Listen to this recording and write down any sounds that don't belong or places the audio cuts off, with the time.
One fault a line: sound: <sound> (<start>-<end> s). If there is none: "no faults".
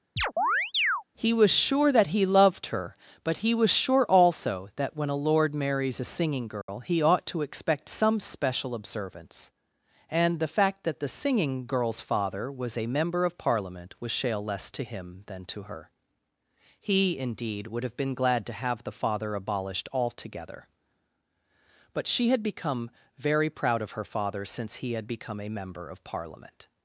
sound: chirp (0.2-1.0 s)
sound: dropout (6.6-6.7 s)